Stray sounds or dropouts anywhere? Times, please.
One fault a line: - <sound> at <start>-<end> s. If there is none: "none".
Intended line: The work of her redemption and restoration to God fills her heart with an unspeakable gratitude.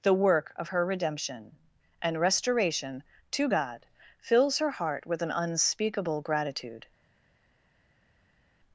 none